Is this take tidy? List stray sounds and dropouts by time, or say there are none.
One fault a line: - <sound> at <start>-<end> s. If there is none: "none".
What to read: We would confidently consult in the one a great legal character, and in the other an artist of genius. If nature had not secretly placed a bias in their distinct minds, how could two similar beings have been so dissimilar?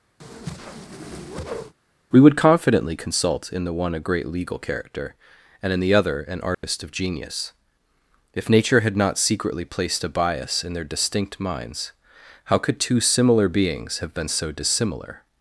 - whoosh at 0.2-1.7 s
- dropout at 6.5-6.6 s